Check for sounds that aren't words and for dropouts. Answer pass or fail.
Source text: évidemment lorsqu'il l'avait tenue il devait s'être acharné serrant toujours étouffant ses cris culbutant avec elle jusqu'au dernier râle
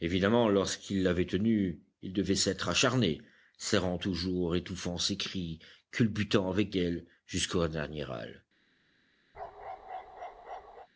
fail